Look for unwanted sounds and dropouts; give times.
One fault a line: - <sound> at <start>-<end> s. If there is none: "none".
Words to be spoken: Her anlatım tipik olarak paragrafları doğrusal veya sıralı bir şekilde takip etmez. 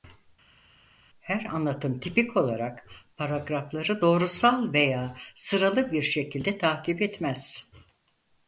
none